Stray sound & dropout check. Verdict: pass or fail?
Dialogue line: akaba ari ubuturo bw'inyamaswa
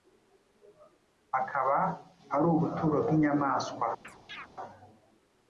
fail